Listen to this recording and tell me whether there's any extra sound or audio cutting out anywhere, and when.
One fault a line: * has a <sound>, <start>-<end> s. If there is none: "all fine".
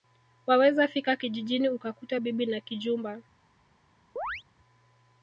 * has a chirp, 4.2-4.4 s